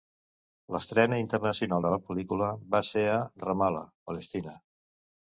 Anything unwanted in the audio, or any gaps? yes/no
no